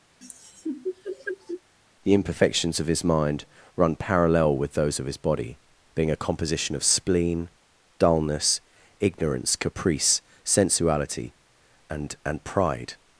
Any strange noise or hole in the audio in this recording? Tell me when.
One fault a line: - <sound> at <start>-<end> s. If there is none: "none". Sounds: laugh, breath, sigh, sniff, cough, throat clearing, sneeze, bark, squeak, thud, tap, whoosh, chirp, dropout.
- laugh at 0.2-1.6 s